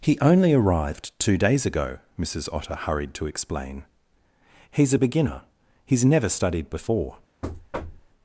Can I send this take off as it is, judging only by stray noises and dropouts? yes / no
no